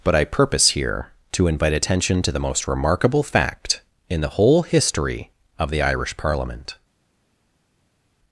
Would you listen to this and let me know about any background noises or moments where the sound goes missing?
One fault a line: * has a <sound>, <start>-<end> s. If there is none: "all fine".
all fine